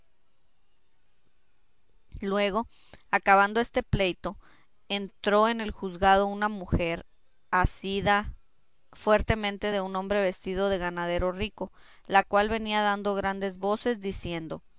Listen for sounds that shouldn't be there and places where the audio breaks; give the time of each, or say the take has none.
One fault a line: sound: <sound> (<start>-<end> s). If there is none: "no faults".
no faults